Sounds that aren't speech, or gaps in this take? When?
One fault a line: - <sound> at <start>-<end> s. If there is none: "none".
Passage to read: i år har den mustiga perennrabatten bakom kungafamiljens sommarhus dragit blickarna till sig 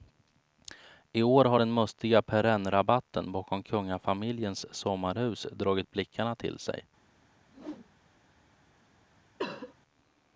- whoosh at 7.5-8.3 s
- cough at 9.4-9.7 s